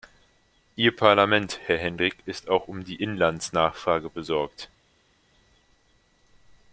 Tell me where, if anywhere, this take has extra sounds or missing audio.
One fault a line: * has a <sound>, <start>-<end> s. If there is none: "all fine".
all fine